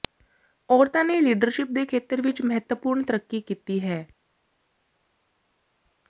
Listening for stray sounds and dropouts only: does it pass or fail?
pass